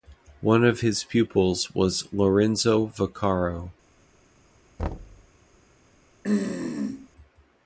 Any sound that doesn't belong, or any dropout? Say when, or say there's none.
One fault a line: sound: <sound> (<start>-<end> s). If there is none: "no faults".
sound: thud (4.8-5.3 s)
sound: throat clearing (6.2-7.1 s)